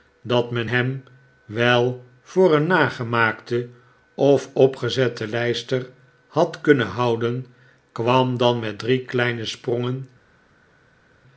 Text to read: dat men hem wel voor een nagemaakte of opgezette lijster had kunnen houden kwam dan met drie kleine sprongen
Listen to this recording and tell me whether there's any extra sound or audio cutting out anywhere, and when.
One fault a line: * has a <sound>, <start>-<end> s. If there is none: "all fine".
all fine